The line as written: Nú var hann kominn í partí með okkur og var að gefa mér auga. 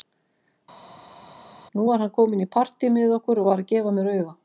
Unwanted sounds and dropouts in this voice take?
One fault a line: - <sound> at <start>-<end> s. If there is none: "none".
none